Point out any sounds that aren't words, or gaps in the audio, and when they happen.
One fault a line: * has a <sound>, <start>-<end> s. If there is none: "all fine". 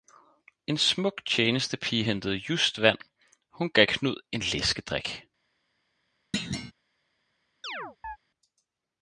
* has a thud, 6.3-6.7 s
* has a chirp, 7.6-8.2 s